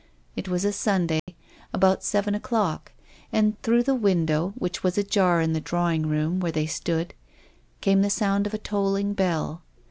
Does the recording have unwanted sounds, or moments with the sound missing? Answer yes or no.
yes